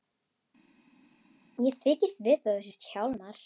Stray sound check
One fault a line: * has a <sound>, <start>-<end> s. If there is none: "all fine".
all fine